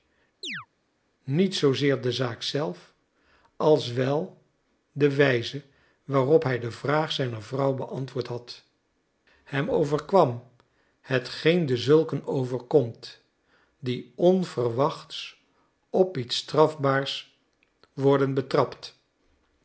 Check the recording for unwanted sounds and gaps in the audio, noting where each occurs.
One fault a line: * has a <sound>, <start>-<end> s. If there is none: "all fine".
* has a chirp, 0.4-0.7 s